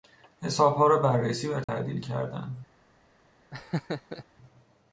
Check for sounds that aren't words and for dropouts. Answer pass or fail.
fail